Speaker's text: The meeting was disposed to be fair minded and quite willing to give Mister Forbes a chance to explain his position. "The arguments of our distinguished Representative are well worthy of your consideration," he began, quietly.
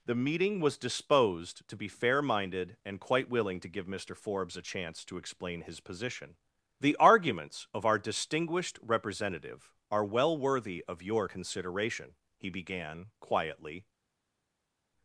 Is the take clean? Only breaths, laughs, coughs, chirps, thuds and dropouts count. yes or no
yes